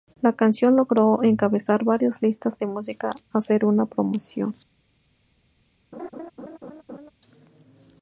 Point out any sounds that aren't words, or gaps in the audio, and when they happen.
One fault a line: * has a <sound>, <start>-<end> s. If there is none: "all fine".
* has a laugh, 5.9-7.1 s